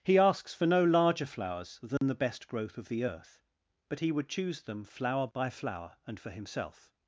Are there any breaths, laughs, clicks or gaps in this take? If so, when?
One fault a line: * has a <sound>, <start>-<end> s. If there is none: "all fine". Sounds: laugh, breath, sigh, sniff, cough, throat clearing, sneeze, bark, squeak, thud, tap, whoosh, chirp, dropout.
* has a dropout, 2.0-2.0 s